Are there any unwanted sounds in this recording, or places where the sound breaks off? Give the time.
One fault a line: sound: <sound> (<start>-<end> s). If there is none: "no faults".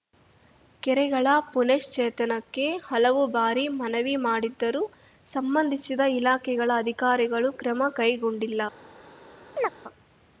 sound: chirp (9.6-9.7 s)